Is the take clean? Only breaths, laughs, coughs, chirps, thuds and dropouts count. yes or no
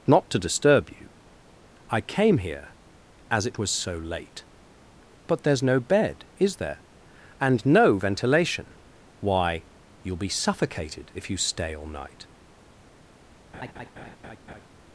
no